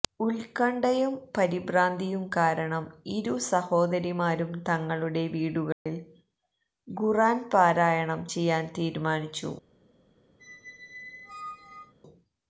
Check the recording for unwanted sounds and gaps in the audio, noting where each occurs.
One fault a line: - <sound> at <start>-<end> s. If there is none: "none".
- dropout at 5.7-5.9 s
- squeak at 10.4-11.9 s